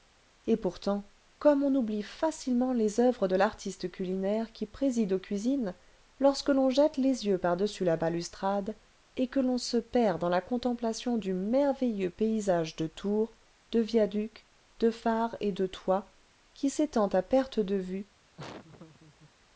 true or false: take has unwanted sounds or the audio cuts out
true